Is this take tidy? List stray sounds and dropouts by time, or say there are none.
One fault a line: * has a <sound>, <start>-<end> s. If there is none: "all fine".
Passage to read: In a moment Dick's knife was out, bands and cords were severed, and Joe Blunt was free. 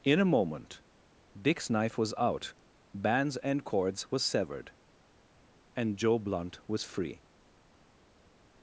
all fine